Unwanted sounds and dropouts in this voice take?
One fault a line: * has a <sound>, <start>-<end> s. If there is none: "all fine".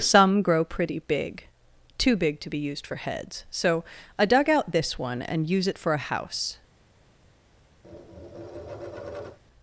* has a tap, 7.8-9.4 s